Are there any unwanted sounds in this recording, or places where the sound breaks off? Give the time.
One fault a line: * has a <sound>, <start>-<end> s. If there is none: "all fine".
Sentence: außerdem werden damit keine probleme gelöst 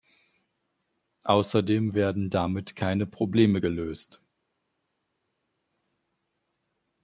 all fine